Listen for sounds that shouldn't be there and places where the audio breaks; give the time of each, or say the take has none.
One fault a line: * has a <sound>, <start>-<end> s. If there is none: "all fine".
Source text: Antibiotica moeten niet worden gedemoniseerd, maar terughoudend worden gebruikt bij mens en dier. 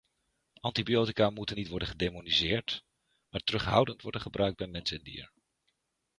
all fine